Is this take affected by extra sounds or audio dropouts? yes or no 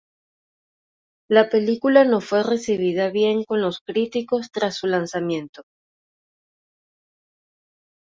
no